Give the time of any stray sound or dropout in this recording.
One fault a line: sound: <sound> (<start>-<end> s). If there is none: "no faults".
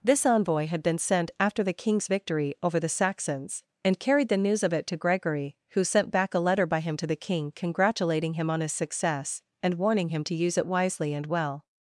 no faults